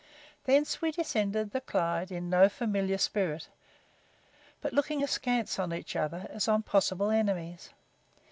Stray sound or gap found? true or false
false